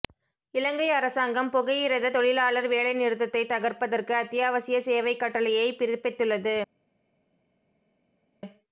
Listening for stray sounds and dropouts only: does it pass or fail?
pass